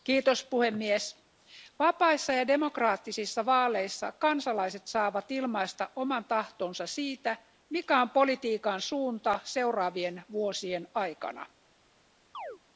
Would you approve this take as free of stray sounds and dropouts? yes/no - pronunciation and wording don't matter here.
no